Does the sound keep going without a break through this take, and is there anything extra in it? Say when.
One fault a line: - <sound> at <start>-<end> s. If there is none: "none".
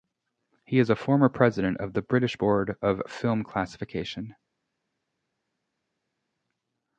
none